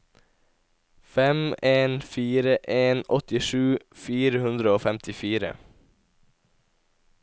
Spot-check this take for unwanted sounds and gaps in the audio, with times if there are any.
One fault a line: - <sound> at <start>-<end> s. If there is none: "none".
none